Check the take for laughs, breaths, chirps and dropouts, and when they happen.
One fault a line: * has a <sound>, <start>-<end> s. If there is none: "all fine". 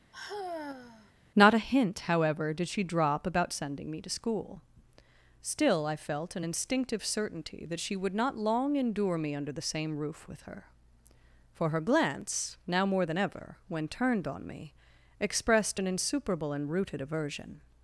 * has a sigh, 0.1-1.1 s